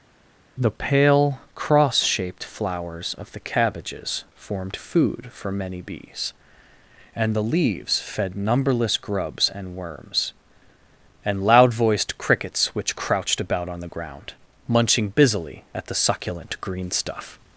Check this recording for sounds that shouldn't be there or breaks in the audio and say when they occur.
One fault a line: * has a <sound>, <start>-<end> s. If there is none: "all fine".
all fine